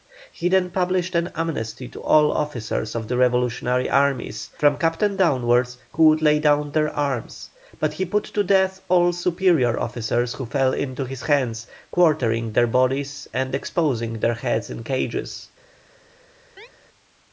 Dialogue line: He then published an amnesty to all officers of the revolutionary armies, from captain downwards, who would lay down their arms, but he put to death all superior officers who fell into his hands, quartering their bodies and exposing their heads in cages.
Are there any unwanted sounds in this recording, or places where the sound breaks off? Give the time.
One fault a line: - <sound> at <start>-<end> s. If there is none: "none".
- chirp at 16.6-16.7 s